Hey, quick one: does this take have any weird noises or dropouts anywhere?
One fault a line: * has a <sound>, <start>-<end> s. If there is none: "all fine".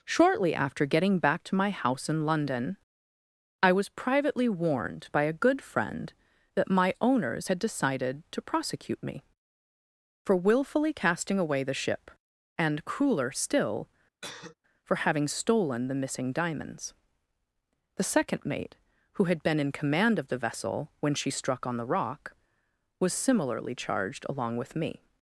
* has a cough, 14.2-14.6 s